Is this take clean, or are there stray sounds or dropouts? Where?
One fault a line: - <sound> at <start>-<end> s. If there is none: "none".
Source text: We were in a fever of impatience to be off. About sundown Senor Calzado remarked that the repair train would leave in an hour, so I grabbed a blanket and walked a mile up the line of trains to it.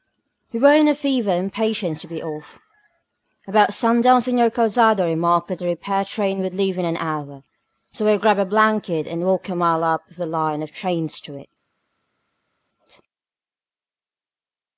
none